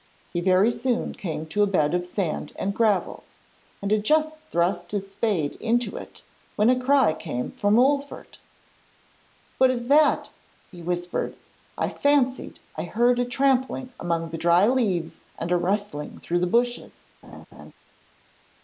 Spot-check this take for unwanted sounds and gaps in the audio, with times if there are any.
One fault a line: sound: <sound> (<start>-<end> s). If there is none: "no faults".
sound: laugh (17.2-17.7 s)